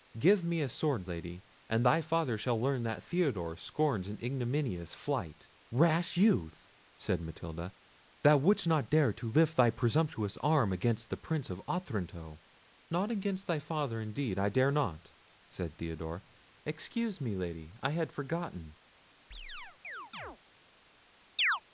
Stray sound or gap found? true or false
true